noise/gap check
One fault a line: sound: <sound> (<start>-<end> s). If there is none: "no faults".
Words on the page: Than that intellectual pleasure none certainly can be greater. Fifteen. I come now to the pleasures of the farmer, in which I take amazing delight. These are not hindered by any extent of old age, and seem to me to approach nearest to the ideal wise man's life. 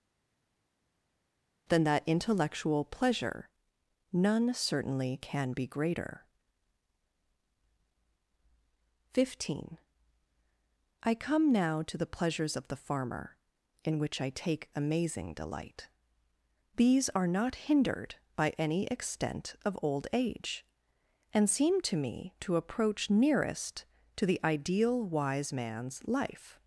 no faults